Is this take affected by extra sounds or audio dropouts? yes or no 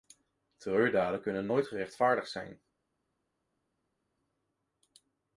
no